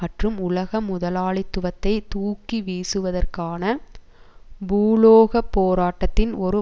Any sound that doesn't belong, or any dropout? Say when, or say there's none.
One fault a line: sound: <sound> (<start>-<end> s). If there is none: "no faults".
no faults